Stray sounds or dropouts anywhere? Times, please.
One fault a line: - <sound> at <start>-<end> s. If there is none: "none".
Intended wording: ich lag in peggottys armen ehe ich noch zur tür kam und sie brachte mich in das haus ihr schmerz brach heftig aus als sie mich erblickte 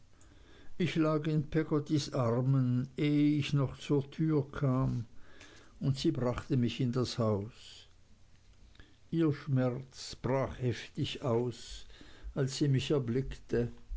none